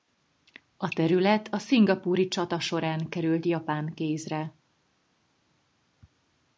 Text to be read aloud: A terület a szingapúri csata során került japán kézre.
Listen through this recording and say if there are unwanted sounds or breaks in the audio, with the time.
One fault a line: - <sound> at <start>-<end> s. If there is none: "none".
none